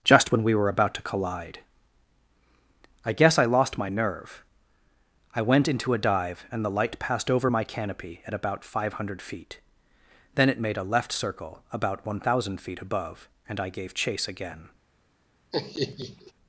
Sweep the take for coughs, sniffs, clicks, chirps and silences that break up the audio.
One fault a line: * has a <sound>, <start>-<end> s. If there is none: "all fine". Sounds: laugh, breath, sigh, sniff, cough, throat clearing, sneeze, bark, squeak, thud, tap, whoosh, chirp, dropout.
* has a laugh, 15.5-16.3 s